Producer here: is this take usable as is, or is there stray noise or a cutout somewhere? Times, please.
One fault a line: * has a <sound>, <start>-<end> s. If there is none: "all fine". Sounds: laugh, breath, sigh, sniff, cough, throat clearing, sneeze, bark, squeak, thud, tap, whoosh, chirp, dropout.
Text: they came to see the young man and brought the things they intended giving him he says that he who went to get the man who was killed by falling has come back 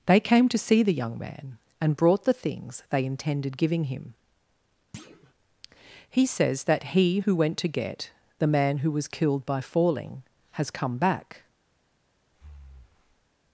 * has a thud, 4.9-5.3 s
* has a breath, 12.3-13.3 s